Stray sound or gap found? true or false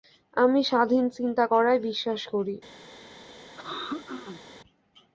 true